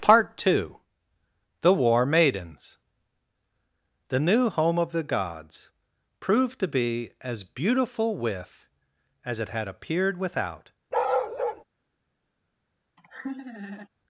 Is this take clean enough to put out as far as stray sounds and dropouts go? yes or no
no